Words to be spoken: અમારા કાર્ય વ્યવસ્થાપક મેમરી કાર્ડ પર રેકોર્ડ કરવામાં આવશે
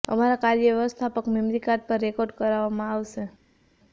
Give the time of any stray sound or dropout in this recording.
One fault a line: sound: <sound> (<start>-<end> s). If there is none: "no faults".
no faults